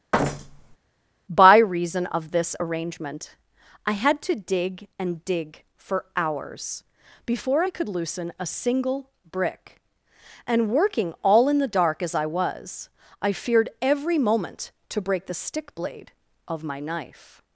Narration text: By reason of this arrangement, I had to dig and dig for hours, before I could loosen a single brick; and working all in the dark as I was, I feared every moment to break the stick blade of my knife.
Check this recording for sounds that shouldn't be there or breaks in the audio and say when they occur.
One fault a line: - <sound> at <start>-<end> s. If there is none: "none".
- thud at 0.1-0.8 s